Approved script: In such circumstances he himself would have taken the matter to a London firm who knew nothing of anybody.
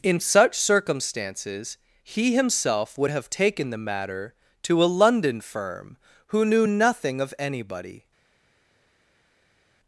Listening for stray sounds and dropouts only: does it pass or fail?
pass